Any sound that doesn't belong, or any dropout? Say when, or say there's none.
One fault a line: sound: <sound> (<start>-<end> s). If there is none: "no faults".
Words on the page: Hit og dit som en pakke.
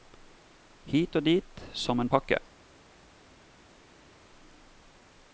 no faults